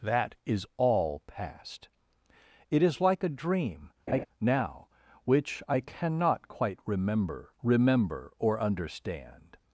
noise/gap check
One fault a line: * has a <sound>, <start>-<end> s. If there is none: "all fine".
* has a laugh, 4.1-4.3 s